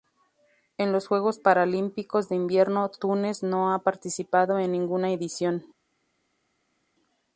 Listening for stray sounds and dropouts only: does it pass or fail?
pass